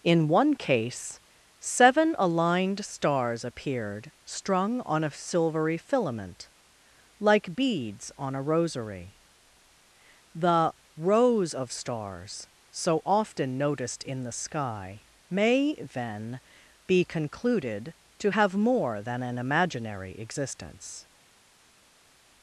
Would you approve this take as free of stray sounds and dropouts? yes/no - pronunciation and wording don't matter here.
yes